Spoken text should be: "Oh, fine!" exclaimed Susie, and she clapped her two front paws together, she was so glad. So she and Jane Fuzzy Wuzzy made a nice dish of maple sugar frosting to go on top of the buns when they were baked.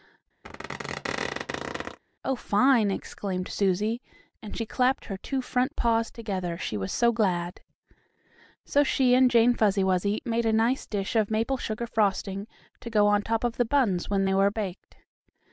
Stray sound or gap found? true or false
true